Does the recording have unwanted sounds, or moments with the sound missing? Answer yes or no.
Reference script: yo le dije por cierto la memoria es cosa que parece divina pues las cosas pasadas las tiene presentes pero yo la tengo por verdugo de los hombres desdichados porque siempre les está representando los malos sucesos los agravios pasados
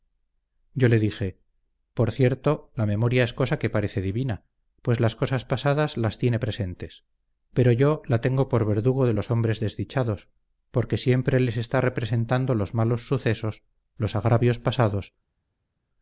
no